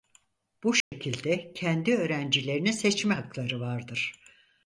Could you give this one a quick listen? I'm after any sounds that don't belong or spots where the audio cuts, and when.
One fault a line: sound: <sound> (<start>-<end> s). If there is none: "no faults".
sound: dropout (0.8-0.9 s)